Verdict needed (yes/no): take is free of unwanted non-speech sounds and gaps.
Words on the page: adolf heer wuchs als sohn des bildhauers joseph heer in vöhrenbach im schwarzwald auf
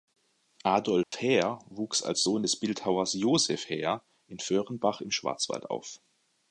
no